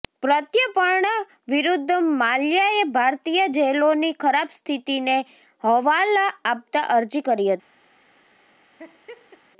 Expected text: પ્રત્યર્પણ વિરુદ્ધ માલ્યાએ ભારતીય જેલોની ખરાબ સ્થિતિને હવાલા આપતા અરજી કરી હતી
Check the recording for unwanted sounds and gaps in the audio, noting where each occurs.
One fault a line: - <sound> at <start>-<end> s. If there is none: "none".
- laugh at 8.8-9.4 s